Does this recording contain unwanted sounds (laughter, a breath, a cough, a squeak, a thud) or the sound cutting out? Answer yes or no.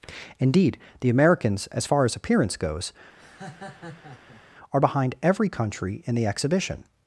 yes